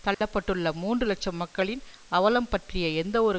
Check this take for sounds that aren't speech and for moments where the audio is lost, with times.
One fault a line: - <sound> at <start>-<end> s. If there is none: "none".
- dropout at 0.1-0.2 s